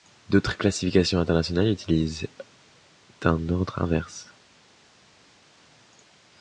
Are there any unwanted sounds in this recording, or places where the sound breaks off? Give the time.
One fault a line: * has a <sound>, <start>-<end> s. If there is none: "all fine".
all fine